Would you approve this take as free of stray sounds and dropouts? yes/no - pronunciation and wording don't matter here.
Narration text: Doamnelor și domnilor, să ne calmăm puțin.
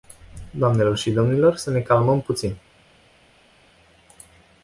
yes